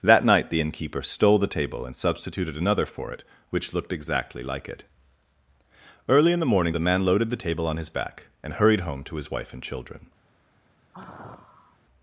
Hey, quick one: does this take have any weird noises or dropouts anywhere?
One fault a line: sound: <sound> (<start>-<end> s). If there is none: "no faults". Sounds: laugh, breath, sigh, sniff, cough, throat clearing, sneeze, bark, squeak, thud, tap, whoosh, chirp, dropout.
sound: sigh (10.9-11.8 s)